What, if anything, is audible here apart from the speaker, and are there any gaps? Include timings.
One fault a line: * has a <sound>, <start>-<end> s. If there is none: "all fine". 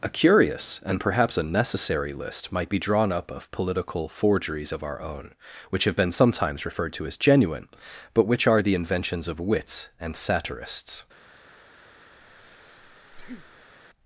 * has a breath, 12.2-13.7 s